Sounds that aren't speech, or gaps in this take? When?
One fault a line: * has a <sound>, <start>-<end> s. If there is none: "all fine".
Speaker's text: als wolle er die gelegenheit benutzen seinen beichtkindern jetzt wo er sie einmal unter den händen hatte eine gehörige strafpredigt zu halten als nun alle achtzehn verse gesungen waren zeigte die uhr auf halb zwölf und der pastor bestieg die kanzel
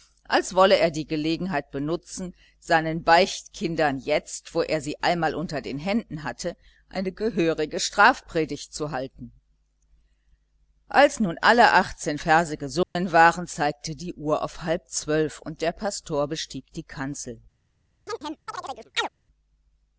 * has a dropout, 12.8-13.0 s
* has a chirp, 18.1-19.1 s